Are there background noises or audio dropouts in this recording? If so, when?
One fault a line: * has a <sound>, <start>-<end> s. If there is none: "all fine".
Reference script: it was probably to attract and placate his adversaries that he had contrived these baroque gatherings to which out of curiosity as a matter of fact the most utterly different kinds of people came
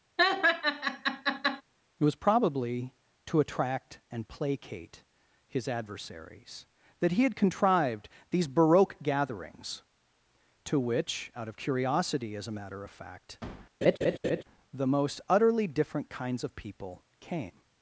* has a laugh, 0.2-1.6 s
* has a laugh, 13.8-14.4 s